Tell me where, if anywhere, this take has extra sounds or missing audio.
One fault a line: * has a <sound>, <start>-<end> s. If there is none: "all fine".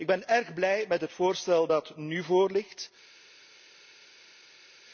all fine